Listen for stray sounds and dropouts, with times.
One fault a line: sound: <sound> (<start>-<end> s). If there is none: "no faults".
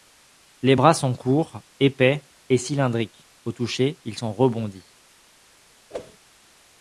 sound: whoosh (5.9-6.2 s)